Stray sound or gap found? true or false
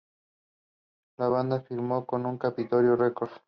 false